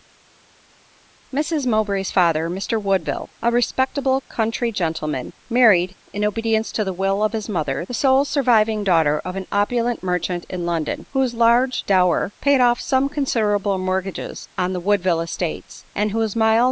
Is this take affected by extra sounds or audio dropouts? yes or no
no